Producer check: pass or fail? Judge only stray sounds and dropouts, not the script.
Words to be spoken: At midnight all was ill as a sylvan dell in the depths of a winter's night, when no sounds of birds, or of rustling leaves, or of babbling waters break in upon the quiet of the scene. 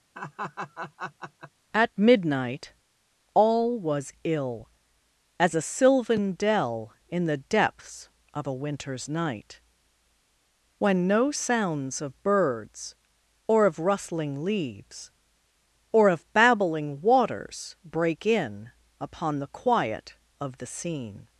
fail